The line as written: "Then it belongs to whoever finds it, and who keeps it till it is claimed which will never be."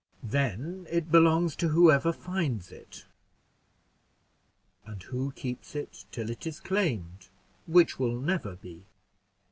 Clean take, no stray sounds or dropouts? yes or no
yes